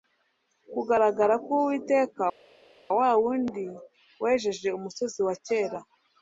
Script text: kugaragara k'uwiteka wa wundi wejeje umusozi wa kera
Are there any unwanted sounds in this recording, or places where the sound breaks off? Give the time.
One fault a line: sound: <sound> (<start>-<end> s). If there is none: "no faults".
no faults